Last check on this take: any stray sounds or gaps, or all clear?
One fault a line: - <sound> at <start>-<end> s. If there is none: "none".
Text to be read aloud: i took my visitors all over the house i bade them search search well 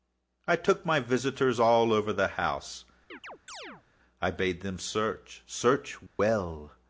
- chirp at 3.1-3.8 s
- dropout at 6.1-6.2 s